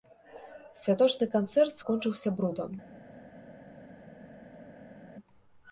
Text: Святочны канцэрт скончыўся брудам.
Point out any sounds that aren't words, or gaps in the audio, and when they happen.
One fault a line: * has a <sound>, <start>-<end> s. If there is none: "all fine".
all fine